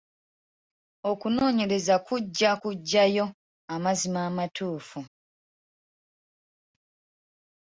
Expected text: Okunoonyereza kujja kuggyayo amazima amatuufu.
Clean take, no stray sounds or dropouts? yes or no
yes